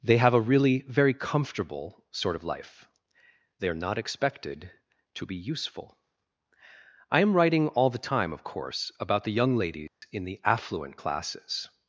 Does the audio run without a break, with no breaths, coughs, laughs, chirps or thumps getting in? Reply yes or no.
no